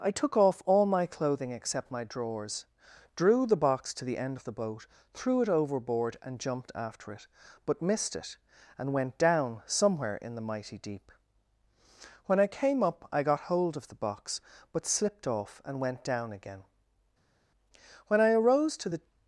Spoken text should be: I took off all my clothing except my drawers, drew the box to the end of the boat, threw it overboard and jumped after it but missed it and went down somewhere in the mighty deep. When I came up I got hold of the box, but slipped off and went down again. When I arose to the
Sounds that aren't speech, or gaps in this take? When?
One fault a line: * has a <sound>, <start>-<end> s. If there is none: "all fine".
all fine